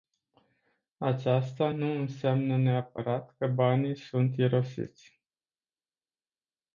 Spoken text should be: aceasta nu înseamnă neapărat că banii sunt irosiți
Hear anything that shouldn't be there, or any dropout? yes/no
no